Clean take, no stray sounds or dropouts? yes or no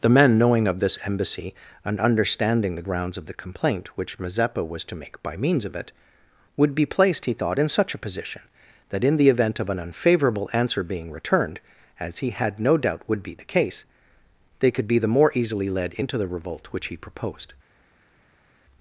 yes